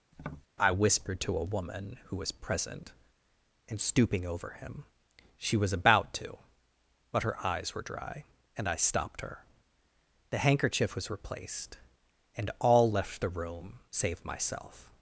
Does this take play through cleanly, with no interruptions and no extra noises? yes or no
no